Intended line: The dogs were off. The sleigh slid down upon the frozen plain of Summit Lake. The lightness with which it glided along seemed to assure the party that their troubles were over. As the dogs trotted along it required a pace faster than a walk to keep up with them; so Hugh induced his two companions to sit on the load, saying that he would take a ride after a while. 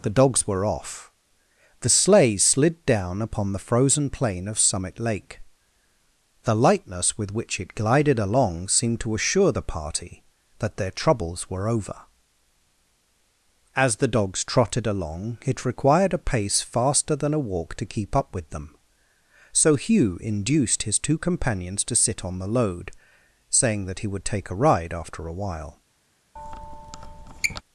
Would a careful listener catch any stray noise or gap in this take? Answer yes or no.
yes